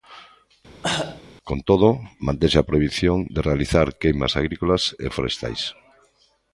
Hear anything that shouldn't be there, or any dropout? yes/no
yes